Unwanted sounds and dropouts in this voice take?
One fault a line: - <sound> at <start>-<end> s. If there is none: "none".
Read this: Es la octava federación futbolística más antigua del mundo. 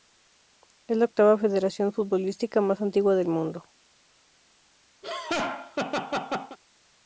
- laugh at 5.0-6.6 s